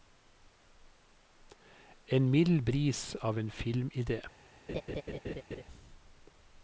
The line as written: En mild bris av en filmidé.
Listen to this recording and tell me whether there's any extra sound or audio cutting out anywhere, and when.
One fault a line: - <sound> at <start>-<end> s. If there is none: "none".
- laugh at 4.7-5.6 s